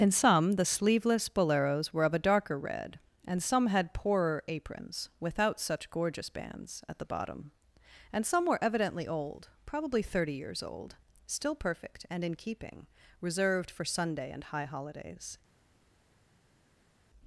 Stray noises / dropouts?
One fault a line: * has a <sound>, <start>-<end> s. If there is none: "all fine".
all fine